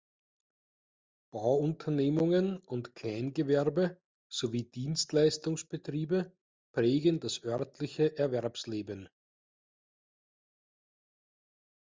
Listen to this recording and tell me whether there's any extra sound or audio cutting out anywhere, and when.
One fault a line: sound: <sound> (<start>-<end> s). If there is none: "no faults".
no faults